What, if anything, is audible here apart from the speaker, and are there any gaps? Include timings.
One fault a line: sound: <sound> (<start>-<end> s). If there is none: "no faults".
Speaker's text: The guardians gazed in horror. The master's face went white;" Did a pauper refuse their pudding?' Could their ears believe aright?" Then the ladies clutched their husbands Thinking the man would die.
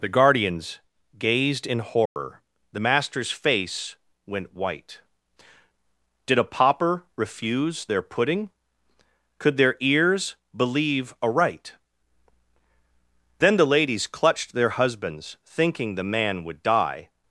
sound: dropout (2.1-2.2 s)